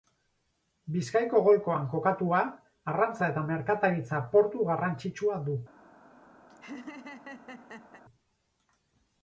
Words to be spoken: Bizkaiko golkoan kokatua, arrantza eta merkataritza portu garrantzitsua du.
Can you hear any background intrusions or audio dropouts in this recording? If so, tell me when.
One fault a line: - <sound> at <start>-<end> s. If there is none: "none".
- laugh at 6.5-8.0 s